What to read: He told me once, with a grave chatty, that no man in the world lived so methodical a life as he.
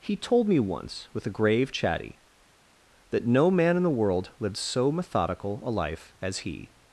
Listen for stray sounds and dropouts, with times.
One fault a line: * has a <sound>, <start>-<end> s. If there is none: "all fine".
all fine